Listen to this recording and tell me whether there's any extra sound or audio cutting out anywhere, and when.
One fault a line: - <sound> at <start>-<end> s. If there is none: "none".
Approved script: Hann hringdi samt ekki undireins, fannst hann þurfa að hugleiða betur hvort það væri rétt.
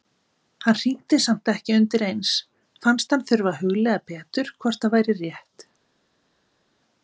none